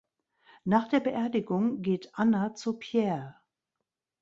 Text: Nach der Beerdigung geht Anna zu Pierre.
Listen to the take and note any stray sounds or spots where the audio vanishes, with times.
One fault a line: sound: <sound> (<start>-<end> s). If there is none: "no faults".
no faults